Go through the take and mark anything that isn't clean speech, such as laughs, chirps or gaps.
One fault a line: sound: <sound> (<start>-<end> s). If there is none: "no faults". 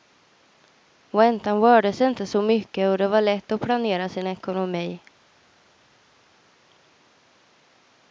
no faults